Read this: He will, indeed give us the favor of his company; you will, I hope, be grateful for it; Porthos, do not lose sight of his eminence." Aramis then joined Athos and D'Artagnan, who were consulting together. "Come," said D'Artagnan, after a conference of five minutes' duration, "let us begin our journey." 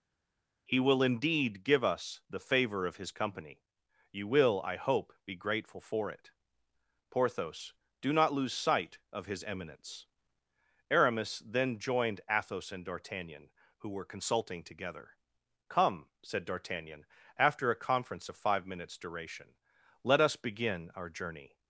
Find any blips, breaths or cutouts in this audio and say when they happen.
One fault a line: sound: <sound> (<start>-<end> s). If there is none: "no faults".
no faults